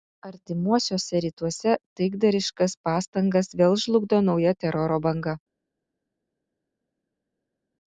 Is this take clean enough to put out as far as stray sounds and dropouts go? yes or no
yes